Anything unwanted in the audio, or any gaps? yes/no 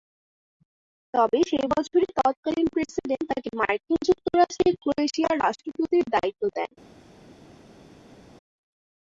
no